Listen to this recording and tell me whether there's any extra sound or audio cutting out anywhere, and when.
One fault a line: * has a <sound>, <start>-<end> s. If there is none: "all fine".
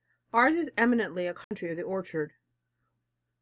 * has a dropout, 1.4-1.5 s